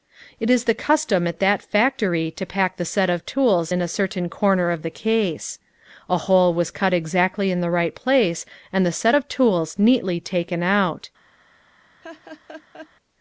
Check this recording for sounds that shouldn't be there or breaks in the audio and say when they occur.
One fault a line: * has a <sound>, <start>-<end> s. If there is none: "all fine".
* has a laugh, 12.0-12.9 s